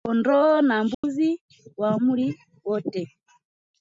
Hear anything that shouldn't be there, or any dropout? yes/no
yes